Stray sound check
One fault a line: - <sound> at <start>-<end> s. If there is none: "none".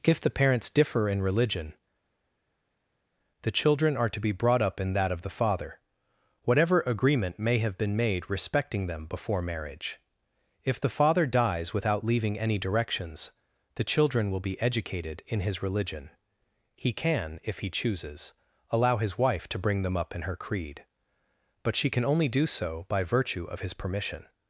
none